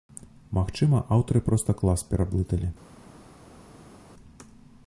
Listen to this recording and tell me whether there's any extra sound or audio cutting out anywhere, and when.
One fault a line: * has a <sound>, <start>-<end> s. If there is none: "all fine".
all fine